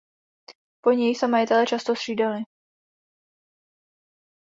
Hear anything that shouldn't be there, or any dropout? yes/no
no